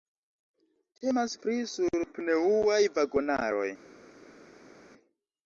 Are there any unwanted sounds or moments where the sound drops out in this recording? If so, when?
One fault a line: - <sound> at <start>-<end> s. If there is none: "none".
none